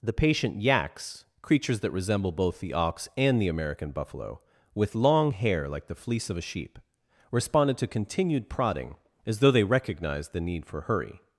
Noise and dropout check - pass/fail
pass